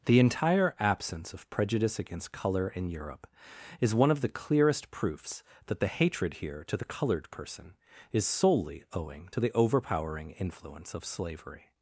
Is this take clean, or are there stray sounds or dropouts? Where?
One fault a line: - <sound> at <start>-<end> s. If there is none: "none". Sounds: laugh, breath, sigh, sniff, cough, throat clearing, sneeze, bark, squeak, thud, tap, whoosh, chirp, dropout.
none